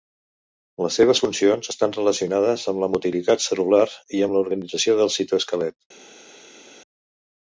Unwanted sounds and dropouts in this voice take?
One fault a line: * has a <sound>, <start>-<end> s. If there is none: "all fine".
all fine